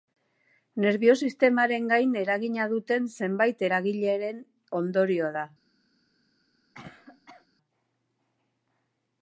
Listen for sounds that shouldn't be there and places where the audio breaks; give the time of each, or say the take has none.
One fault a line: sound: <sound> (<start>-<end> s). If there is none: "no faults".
sound: cough (6.7-7.5 s)